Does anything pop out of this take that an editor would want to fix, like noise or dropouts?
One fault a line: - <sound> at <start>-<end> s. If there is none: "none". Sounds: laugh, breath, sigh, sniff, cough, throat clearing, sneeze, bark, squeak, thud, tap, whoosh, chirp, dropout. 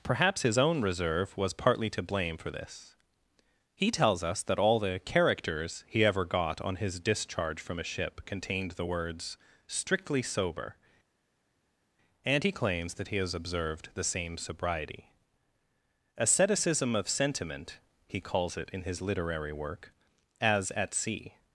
none